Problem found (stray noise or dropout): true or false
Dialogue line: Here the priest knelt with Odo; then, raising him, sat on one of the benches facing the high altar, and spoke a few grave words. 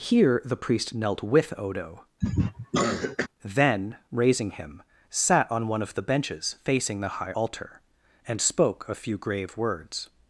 true